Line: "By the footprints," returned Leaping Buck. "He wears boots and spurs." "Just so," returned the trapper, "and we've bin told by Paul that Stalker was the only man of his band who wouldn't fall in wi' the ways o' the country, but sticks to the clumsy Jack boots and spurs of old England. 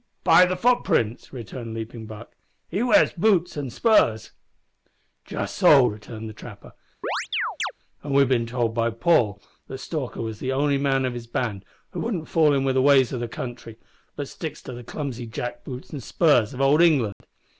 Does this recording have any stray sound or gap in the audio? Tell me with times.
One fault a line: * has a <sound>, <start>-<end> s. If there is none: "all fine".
* has a chirp, 7.0-7.7 s
* has a dropout, 17.1-17.2 s